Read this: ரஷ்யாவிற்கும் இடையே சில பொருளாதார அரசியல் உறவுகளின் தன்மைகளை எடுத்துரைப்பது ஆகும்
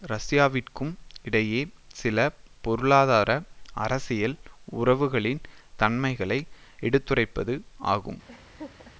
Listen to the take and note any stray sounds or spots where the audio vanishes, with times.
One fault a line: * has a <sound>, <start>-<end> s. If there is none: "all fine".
* has a laugh, 8.3-8.9 s